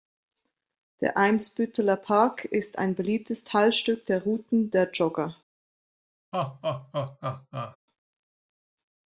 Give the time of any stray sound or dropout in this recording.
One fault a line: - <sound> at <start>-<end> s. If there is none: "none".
- laugh at 6.3-7.8 s